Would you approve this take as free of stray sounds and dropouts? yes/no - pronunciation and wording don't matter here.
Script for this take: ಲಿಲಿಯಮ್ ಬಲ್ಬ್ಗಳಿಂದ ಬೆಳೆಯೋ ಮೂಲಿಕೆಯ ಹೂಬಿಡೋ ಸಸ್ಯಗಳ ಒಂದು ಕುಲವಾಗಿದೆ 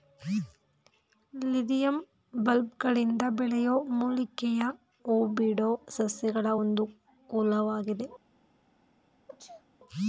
no